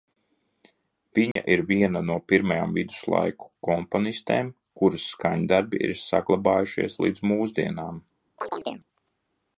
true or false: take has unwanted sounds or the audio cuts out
true